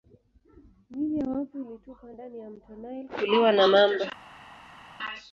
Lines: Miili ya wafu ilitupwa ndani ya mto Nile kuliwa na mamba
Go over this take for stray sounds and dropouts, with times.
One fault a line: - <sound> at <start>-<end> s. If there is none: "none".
none